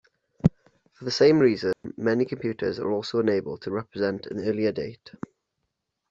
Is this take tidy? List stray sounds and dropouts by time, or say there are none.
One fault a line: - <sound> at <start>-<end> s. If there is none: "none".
- dropout at 1.7-1.8 s